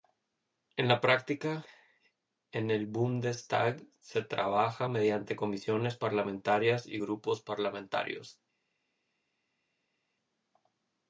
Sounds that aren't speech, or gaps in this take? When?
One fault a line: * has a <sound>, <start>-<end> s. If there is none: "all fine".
all fine